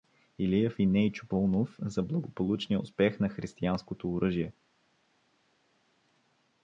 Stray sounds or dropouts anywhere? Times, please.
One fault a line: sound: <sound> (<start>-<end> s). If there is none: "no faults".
no faults